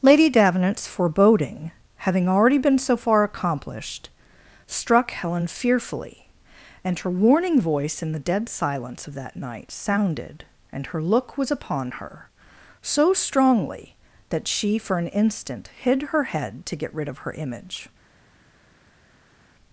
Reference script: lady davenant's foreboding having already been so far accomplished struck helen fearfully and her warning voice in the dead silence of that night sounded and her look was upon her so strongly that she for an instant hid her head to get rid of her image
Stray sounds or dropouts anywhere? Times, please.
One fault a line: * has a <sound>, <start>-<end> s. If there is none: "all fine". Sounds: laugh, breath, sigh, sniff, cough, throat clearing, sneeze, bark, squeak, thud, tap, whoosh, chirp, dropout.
all fine